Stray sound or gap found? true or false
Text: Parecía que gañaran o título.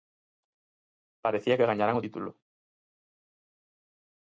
false